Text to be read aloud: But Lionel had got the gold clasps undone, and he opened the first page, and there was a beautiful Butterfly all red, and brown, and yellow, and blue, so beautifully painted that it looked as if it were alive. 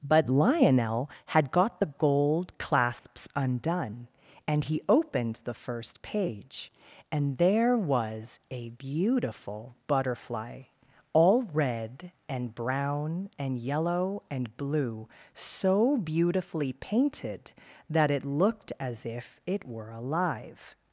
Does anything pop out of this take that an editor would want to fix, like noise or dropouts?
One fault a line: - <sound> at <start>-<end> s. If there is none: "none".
- dropout at 3.0-3.1 s